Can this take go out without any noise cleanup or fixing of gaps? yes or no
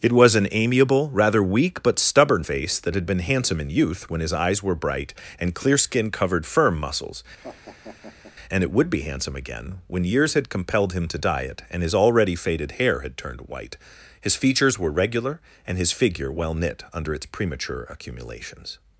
no